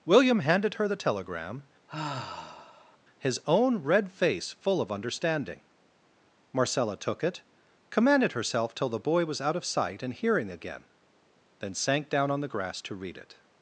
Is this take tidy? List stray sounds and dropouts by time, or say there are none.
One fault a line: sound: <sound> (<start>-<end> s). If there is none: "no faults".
sound: sigh (1.9-3.0 s)